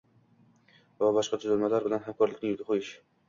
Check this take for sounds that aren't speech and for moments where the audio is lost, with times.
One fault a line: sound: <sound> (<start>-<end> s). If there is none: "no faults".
no faults